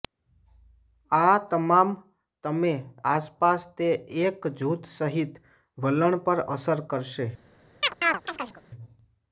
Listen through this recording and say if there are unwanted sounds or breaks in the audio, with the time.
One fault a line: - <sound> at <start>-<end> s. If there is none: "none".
- chirp at 7.8-8.6 s